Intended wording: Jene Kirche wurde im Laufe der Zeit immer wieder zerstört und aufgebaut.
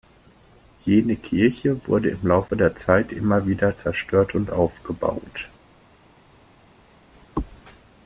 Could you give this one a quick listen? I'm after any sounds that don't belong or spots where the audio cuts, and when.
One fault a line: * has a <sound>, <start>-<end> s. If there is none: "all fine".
all fine